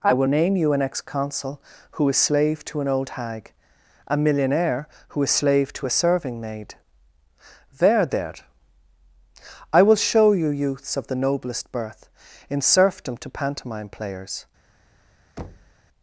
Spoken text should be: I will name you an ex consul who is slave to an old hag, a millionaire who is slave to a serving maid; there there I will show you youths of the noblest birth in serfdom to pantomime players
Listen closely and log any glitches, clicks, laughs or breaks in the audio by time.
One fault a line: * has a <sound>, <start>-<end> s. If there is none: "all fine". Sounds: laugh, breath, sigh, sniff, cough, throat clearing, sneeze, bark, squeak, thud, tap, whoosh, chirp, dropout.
* has a thud, 15.4-15.7 s